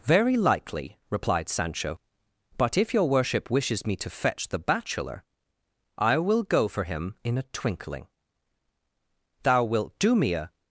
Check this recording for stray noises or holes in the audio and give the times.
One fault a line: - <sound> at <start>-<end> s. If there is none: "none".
none